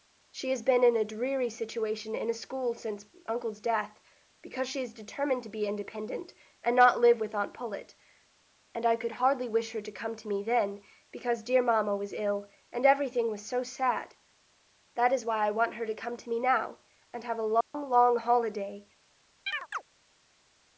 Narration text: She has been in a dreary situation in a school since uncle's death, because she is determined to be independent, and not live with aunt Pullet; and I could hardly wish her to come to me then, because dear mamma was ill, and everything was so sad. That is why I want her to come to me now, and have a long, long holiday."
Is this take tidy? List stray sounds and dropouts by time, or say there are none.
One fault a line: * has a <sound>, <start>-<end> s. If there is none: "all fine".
* has a dropout, 17.6-17.7 s
* has a chirp, 19.5-19.8 s